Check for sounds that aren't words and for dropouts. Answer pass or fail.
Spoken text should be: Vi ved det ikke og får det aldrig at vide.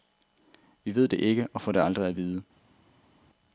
pass